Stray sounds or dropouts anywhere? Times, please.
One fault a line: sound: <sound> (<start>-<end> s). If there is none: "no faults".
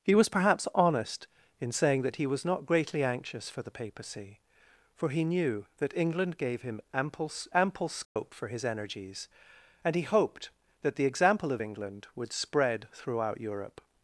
sound: dropout (8.0-8.2 s)